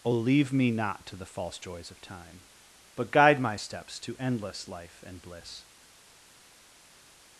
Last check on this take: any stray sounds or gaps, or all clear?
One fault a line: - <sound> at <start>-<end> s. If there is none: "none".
none